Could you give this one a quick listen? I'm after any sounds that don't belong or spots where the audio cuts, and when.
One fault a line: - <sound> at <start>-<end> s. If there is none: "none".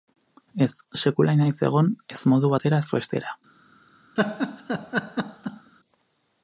- laugh at 4.2-5.7 s